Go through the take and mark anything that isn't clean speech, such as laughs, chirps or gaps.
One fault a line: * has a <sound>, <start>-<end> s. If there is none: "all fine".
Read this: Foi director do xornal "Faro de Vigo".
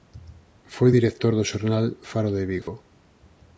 * has a dropout, 2.6-2.7 s